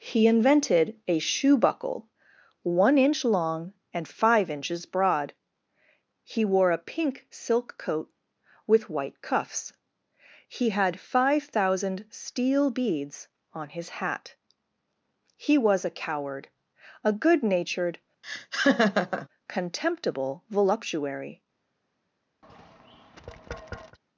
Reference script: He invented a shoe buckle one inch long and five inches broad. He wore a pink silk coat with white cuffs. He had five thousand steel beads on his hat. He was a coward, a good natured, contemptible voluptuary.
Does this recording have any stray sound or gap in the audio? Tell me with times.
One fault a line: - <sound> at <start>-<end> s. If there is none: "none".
- laugh at 18.2-19.3 s
- tap at 22.4-24.0 s